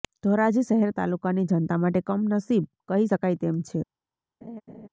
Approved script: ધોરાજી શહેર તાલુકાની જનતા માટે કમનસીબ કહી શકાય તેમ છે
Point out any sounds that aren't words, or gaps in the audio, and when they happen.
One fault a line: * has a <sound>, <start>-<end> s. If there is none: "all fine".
* has a laugh, 4.4-4.9 s